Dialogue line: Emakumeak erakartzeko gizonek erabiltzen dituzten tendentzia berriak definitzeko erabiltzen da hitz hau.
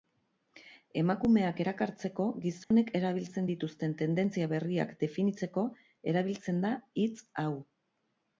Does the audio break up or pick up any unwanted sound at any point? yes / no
yes